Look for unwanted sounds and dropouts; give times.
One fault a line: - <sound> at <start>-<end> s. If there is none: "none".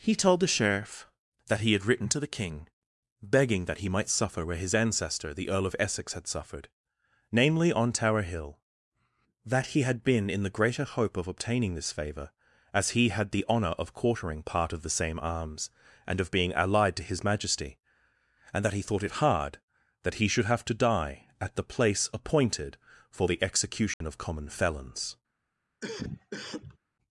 - dropout at 23.9-24.0 s
- cough at 25.8-26.8 s